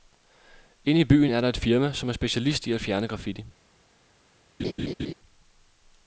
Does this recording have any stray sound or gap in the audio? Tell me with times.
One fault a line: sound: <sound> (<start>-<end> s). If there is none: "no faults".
sound: laugh (4.6-5.1 s)